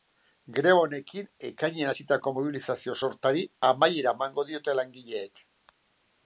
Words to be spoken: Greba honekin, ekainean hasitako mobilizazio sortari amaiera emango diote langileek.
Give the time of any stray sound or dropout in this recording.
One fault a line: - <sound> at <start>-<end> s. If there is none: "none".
none